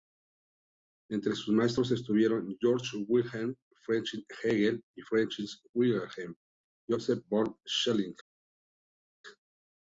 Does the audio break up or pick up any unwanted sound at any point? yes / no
no